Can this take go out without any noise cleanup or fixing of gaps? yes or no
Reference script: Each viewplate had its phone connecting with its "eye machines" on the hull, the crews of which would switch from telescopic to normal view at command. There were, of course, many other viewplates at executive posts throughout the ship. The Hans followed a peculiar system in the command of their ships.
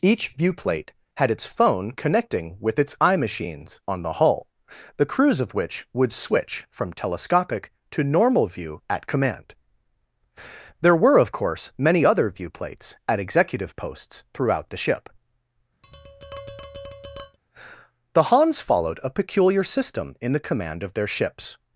no